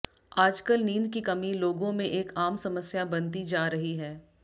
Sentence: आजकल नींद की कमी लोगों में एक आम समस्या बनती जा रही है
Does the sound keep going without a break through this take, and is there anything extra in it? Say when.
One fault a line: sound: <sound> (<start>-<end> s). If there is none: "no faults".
no faults